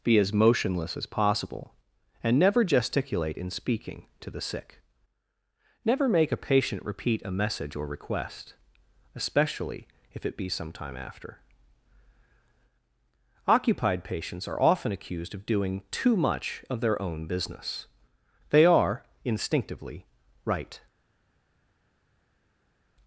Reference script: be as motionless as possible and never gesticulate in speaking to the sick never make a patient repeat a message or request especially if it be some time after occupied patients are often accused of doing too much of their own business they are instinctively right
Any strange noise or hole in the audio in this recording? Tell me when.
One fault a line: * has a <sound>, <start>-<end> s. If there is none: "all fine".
all fine